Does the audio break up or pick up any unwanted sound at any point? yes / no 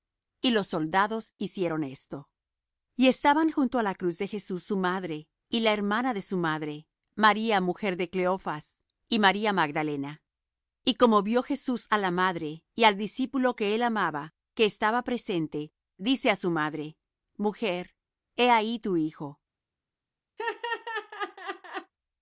yes